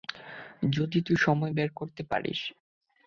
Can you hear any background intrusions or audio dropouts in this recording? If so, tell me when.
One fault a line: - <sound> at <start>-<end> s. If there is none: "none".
none